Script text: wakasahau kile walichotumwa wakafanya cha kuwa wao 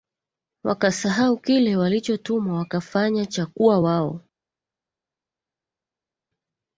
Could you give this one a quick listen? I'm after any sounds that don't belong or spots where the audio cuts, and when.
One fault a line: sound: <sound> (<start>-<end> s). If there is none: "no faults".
no faults